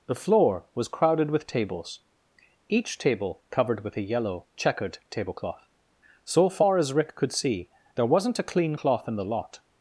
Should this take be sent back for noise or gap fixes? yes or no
no